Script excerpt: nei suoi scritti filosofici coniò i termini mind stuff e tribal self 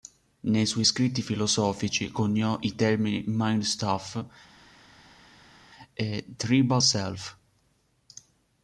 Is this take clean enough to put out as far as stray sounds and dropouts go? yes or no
yes